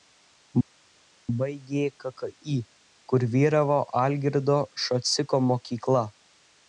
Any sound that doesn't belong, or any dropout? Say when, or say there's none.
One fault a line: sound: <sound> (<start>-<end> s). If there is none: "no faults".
no faults